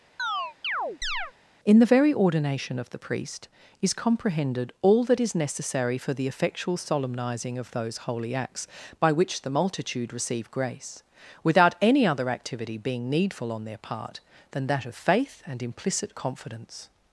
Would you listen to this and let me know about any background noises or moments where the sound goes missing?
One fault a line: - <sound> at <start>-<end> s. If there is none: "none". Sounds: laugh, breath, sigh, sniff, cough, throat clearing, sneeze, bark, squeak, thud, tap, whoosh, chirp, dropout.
- chirp at 0.2-1.3 s